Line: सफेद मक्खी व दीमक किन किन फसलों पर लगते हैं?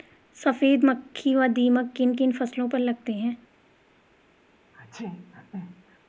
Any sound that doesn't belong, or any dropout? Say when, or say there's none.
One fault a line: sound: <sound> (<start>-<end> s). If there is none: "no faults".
sound: sneeze (4.7-6.0 s)